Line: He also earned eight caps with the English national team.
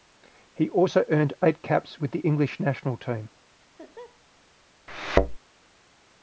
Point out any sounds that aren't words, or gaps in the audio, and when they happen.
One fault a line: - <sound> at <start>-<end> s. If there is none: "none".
- laugh at 3.6-4.2 s
- thud at 4.9-5.4 s